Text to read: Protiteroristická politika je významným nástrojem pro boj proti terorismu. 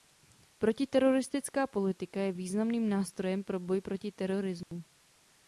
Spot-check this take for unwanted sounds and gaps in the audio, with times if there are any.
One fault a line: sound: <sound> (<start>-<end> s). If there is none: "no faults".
sound: dropout (4.6-4.7 s)